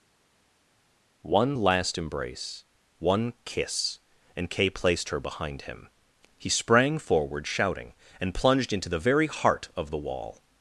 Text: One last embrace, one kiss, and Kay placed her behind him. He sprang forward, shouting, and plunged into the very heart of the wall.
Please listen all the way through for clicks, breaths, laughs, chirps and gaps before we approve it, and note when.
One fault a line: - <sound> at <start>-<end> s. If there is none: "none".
none